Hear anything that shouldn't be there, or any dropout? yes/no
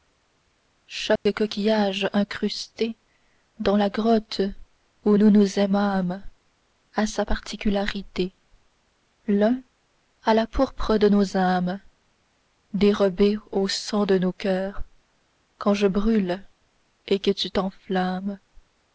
yes